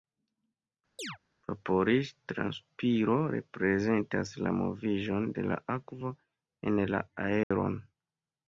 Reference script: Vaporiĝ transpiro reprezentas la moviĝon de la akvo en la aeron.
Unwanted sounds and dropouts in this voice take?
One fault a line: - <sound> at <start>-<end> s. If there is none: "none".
- chirp at 1.0-1.2 s
- dropout at 7.4-7.5 s